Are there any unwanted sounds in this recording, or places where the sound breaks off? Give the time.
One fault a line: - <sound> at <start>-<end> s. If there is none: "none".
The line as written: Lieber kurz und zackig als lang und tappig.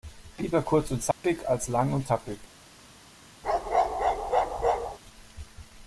- dropout at 1.1-1.2 s
- bark at 3.4-5.0 s